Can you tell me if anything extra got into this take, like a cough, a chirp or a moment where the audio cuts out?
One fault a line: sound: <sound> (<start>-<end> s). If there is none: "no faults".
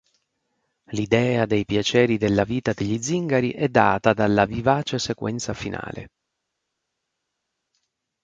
no faults